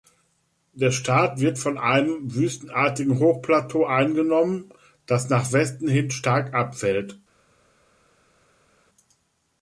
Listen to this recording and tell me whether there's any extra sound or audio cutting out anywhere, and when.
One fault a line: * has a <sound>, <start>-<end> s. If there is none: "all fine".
all fine